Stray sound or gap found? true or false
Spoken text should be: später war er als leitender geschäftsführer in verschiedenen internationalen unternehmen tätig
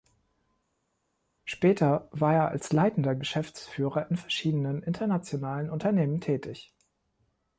false